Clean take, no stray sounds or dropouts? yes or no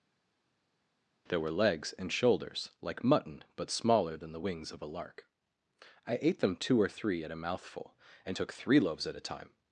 yes